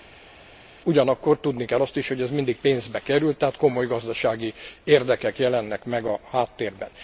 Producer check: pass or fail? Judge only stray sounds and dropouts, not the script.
pass